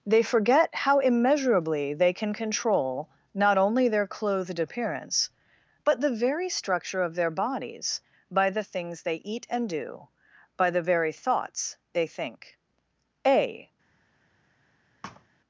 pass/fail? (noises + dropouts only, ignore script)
fail